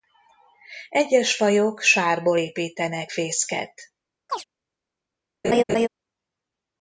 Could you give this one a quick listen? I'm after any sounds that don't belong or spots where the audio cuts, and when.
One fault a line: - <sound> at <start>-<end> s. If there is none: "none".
- chirp at 4.3-4.4 s
- laugh at 5.4-5.9 s